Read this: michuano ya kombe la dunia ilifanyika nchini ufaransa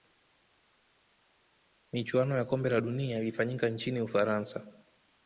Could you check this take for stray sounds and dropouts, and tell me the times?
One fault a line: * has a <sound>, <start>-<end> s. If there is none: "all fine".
all fine